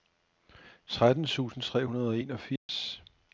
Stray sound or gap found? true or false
true